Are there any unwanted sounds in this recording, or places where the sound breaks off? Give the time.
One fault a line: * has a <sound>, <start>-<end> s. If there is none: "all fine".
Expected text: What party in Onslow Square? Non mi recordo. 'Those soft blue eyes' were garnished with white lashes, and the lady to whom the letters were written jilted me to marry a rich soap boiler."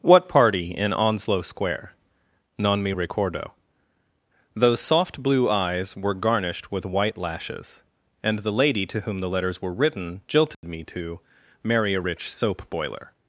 * has a dropout, 10.5-10.6 s